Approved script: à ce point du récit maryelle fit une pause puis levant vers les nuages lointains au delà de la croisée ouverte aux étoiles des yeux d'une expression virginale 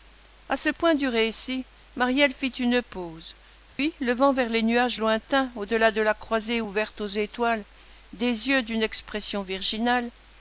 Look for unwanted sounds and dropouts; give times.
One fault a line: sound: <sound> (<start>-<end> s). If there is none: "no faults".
sound: dropout (3.7-3.8 s)